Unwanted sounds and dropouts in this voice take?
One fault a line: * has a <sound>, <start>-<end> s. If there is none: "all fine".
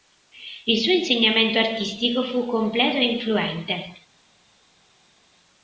all fine